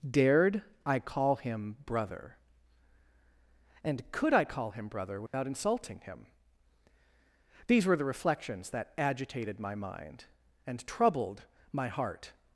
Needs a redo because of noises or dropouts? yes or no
yes